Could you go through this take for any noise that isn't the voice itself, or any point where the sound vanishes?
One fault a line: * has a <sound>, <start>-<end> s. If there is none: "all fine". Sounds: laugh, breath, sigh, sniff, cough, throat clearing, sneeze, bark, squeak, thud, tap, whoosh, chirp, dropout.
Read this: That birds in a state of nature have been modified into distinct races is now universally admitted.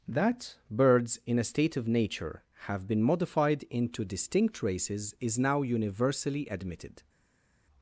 all fine